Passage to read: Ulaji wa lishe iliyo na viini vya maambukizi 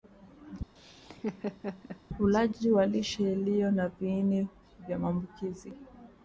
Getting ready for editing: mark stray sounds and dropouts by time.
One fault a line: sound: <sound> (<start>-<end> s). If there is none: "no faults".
sound: laugh (0.8-2.0 s)